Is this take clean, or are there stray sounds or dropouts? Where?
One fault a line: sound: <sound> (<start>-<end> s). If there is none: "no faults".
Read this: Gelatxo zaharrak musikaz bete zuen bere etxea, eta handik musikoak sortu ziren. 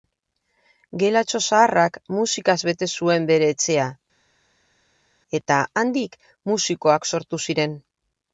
no faults